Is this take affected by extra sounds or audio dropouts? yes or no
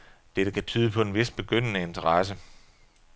no